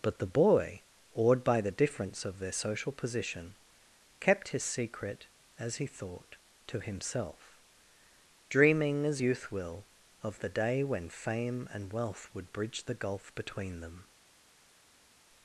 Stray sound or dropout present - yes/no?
no